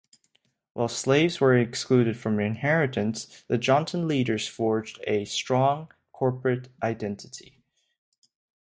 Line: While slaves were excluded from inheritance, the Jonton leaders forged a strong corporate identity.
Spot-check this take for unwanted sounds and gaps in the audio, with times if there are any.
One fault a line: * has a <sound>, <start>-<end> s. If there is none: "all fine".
all fine